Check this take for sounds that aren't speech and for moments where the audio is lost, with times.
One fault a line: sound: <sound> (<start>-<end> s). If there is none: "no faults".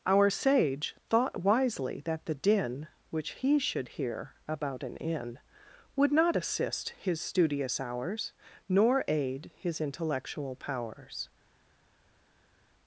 no faults